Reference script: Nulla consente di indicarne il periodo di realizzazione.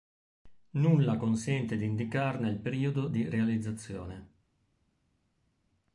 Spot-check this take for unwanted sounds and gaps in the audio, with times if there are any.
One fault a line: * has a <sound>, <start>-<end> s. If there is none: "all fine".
all fine